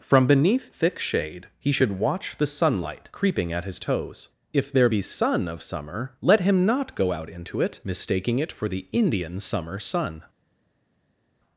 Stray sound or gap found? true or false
false